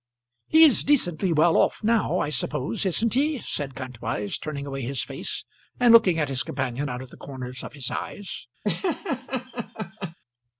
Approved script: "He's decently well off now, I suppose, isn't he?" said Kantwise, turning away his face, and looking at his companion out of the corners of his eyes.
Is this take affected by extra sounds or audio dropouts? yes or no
yes